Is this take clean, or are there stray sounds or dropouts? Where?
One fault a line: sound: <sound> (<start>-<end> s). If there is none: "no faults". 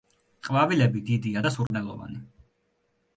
sound: dropout (1.7-1.7 s)